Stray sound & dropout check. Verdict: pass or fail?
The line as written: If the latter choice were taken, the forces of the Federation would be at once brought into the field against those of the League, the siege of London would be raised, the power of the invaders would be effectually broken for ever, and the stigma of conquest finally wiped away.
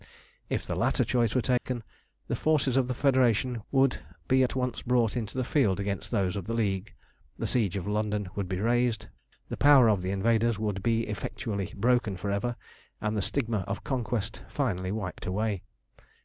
fail